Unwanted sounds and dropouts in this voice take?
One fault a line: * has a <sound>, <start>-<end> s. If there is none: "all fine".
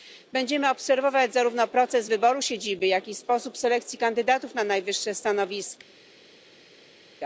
all fine